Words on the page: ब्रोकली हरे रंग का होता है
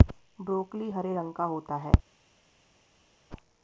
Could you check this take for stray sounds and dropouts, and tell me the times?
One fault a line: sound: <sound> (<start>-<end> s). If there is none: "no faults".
no faults